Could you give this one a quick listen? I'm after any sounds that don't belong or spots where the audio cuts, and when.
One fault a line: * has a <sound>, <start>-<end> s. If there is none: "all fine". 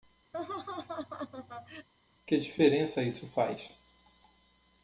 * has a laugh, 0.3-1.9 s